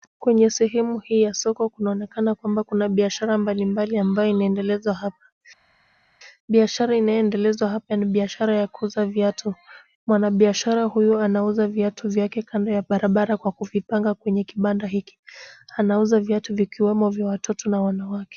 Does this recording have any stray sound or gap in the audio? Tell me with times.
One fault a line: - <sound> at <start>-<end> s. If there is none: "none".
none